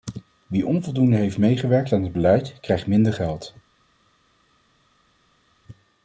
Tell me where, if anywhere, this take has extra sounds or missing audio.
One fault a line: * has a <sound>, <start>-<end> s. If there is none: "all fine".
all fine